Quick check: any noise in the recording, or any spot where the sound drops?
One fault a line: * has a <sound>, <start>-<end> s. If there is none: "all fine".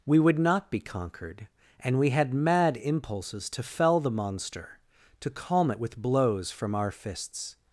all fine